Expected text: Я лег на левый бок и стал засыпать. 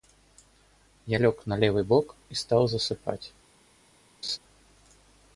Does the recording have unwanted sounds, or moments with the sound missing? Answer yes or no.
yes